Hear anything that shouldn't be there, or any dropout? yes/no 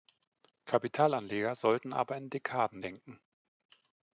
no